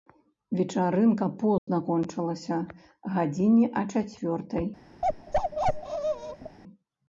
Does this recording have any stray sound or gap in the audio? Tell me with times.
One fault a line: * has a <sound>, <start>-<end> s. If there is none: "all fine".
* has a dropout, 1.6-1.7 s
* has a bark, 5.0-6.6 s